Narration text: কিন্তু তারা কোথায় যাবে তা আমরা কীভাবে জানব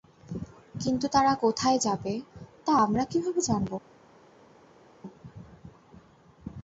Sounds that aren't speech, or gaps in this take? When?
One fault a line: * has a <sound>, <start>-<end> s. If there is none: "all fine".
all fine